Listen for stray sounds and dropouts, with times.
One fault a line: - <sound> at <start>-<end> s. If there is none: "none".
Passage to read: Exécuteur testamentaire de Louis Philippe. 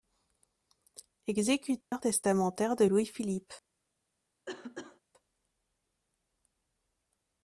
- dropout at 1.8-1.9 s
- cough at 4.5-5.0 s